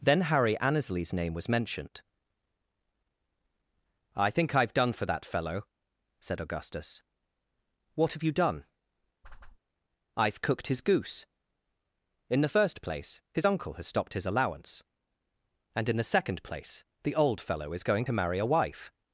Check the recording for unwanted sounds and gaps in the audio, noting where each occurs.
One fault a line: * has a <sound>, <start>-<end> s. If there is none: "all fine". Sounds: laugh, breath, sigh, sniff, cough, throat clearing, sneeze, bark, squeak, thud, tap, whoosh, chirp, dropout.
* has a whoosh, 9.2-9.6 s